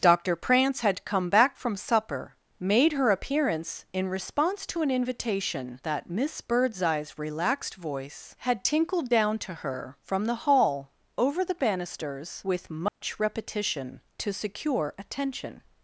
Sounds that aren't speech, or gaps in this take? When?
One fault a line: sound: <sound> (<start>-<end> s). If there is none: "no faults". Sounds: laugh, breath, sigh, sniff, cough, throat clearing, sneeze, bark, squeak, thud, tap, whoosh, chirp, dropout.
sound: dropout (12.9-13.0 s)